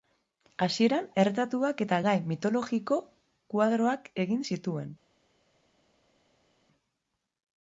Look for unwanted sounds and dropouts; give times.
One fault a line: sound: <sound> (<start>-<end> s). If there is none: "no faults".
no faults